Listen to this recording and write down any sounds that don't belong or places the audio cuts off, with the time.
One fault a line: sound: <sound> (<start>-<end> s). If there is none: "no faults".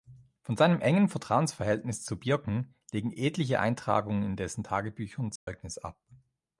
sound: dropout (5.4-5.5 s)